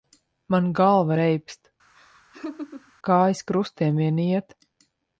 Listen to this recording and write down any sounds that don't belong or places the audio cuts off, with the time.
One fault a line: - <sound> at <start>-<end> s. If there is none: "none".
- laugh at 1.9-2.9 s